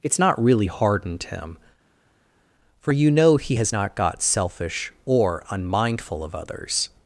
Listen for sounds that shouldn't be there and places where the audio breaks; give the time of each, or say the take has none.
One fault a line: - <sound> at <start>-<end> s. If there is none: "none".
none